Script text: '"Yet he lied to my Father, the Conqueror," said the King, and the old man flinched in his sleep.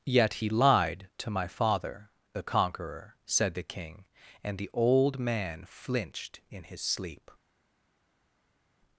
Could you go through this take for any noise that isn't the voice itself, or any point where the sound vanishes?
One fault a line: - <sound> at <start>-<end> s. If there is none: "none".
none